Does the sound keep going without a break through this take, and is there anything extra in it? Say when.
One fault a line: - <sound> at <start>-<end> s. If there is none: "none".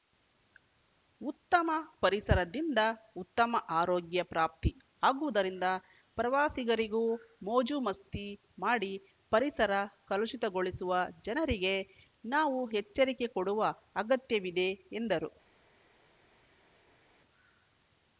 none